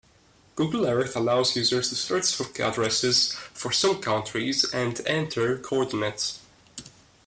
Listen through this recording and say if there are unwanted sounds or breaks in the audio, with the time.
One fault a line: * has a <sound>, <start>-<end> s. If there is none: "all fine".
all fine